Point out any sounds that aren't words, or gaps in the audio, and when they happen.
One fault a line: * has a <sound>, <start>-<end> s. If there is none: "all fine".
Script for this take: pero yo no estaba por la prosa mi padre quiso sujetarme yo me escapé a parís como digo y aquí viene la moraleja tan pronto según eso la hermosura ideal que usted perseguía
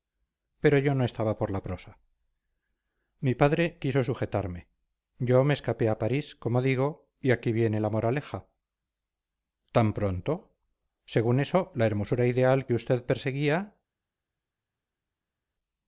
all fine